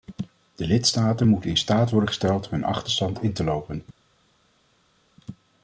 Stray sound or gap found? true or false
false